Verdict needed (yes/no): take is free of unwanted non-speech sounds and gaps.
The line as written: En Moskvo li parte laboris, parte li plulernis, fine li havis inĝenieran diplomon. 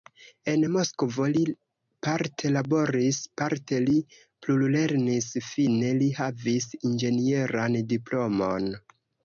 yes